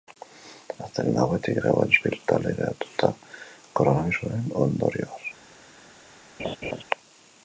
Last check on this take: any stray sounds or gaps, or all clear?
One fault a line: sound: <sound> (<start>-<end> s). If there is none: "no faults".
sound: laugh (6.4-6.8 s)